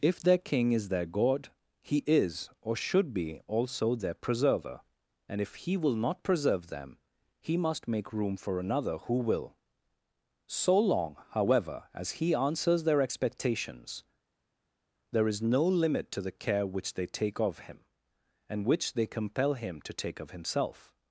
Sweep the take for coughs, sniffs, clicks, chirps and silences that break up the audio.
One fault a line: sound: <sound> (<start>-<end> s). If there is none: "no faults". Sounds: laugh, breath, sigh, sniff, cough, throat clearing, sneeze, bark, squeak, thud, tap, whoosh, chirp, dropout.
no faults